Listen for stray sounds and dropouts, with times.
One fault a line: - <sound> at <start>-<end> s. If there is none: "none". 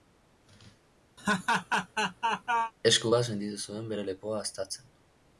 - laugh at 1.2-2.7 s